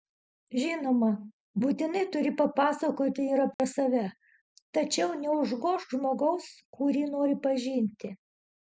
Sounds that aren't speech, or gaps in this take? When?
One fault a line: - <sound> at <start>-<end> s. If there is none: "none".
- dropout at 3.5-3.6 s